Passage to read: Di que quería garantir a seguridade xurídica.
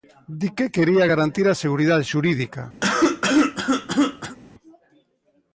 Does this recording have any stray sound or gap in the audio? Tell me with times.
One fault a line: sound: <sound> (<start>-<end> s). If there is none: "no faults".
sound: cough (2.8-4.4 s)